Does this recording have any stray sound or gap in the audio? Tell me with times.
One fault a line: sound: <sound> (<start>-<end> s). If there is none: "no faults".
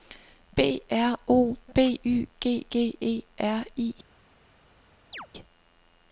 sound: chirp (5.1-5.3 s)